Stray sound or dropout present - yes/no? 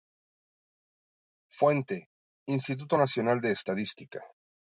no